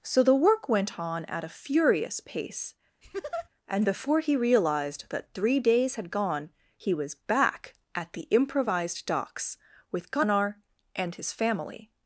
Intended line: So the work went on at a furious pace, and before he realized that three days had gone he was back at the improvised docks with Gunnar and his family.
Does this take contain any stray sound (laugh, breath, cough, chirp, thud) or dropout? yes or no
yes